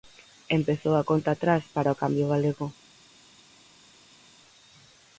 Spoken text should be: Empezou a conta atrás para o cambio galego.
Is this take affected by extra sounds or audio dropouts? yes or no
no